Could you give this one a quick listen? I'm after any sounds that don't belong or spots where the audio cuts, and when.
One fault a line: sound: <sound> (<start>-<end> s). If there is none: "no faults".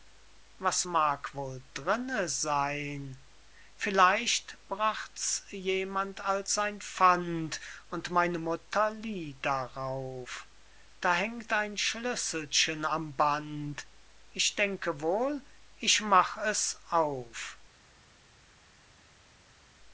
no faults